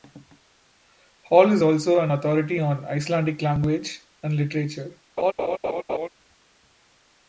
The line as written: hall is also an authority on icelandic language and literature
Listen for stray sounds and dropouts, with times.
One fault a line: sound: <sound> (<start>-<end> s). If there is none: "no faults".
sound: laugh (5.2-6.1 s)